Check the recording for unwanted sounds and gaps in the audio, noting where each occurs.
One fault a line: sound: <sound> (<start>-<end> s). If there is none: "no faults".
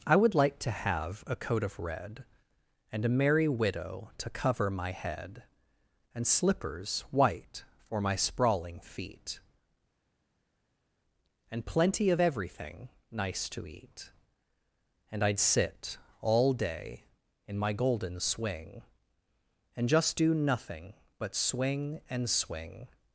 no faults